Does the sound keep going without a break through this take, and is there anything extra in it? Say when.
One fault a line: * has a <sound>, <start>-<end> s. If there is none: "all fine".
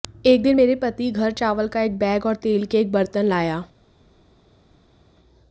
all fine